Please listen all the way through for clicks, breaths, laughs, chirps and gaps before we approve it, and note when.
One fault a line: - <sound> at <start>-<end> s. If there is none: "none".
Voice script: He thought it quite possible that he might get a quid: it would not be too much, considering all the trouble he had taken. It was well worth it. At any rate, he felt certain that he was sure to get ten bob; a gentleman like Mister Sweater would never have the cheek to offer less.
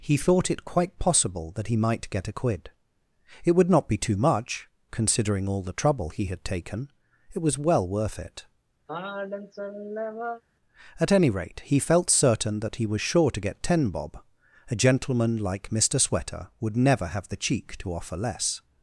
- sigh at 8.9-10.4 s